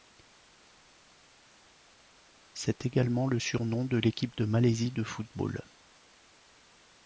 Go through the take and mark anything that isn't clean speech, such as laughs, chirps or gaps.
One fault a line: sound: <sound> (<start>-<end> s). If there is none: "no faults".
no faults